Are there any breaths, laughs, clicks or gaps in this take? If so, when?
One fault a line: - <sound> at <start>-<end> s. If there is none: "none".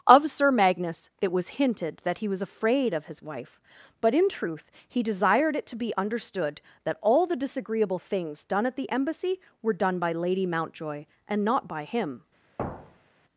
- thud at 12.6-13.3 s